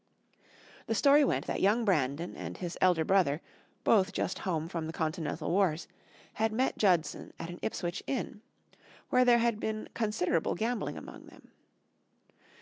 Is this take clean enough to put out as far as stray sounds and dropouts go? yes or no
yes